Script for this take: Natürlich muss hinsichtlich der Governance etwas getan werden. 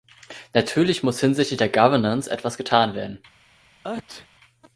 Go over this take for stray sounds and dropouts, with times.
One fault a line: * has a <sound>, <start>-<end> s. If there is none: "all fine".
* has a sneeze, 3.8-4.3 s